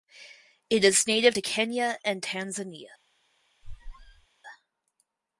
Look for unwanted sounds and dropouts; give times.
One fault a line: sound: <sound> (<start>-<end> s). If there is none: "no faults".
sound: squeak (3.6-4.3 s)